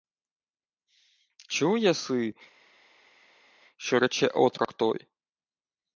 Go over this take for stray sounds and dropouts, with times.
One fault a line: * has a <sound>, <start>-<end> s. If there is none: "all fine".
all fine